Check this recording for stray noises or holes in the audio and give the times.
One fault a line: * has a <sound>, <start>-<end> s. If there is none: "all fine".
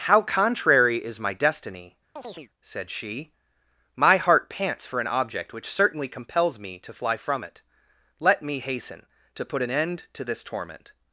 * has a chirp, 2.2-2.5 s